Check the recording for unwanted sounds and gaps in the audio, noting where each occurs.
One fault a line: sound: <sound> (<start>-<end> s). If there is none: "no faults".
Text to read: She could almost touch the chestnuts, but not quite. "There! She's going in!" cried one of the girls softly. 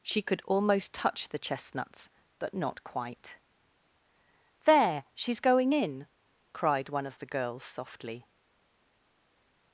no faults